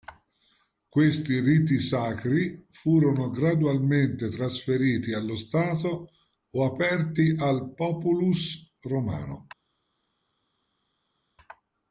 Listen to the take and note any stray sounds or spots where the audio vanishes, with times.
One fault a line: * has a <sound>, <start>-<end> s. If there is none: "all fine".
all fine